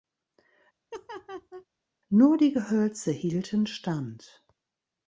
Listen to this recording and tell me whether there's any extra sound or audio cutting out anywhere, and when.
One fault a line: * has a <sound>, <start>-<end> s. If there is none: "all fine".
* has a laugh, 0.9-1.7 s